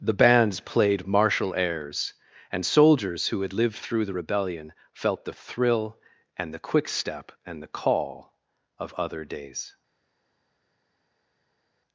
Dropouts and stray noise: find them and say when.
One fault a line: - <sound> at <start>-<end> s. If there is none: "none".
none